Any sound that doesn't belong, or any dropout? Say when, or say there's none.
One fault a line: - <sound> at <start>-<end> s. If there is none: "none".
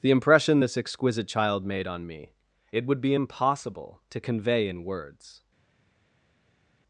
none